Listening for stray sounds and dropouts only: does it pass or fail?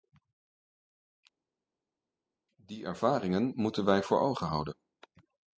pass